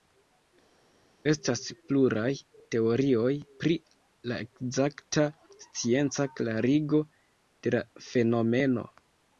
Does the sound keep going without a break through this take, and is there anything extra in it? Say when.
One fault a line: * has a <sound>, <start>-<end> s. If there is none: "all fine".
all fine